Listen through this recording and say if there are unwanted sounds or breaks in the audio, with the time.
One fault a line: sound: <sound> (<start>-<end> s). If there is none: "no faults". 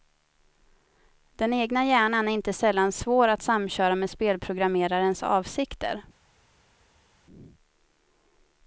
no faults